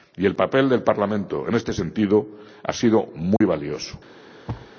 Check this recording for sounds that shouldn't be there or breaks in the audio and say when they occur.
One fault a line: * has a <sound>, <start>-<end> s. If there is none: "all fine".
* has a dropout, 3.4-3.4 s
* has a thud, 4.5-4.7 s